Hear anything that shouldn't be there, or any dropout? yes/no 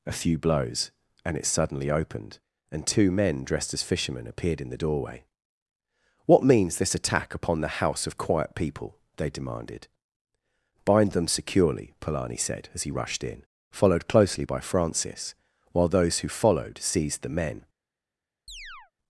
yes